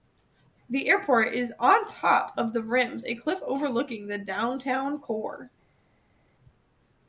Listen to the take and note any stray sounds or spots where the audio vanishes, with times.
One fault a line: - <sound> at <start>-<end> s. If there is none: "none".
none